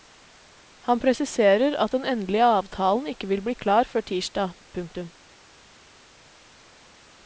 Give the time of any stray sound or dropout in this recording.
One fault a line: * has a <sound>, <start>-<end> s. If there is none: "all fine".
all fine